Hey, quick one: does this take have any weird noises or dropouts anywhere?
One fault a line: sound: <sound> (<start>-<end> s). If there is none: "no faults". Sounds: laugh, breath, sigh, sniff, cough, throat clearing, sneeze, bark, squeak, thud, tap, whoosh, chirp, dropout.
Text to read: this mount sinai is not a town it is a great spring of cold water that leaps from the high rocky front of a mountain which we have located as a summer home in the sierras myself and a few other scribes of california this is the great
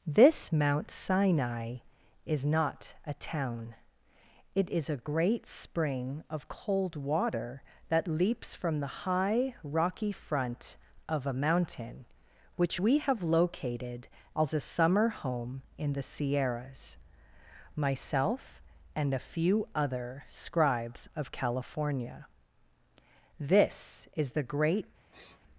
sound: sniff (25.1-25.4 s)